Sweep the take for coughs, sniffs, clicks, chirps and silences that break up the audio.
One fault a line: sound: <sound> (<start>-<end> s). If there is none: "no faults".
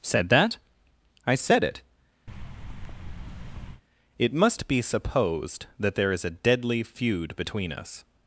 sound: thud (2.3-3.8 s)